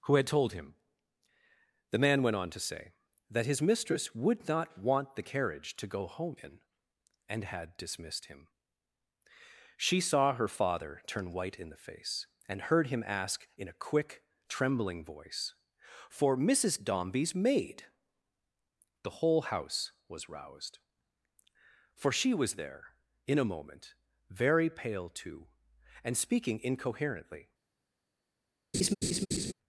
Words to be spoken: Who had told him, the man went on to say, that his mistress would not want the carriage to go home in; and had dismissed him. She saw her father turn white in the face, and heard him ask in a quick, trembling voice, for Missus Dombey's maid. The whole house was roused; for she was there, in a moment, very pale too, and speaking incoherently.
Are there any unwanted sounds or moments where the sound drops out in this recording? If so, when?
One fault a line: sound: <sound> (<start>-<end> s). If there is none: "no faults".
sound: laugh (28.7-29.5 s)